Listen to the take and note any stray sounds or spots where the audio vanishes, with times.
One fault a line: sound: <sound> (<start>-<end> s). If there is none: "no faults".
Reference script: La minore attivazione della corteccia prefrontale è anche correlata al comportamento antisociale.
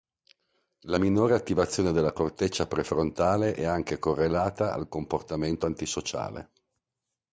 no faults